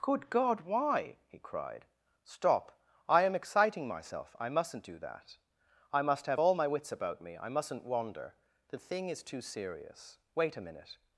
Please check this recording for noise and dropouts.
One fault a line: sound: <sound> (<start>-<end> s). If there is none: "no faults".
no faults